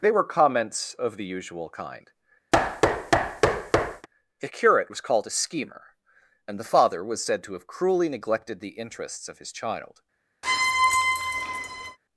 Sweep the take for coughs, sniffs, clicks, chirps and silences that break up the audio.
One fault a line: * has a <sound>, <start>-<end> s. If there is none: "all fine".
* has a thud, 2.5-4.1 s
* has a squeak, 10.4-12.0 s